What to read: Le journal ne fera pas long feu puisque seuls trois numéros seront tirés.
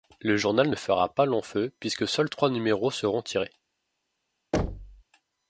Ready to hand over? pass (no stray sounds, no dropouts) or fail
fail